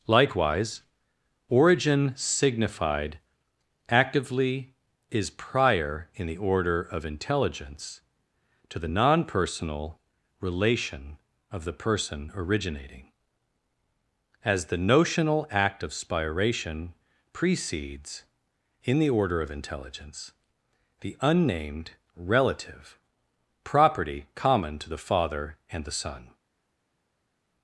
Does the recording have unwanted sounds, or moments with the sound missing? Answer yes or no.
no